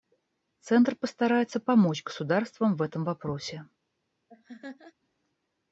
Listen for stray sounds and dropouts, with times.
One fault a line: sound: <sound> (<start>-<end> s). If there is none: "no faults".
sound: laugh (4.3-4.9 s)